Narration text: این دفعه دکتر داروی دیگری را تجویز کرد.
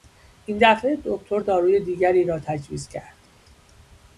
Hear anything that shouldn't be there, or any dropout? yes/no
no